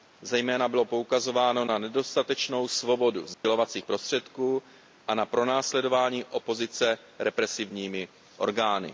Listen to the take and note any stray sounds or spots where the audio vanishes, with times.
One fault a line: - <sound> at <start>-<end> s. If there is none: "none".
- dropout at 3.3-3.4 s